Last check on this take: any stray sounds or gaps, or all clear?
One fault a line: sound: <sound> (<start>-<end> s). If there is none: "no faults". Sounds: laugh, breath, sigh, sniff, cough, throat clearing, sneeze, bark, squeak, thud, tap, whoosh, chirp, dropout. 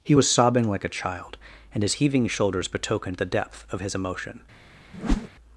sound: whoosh (4.9-5.3 s)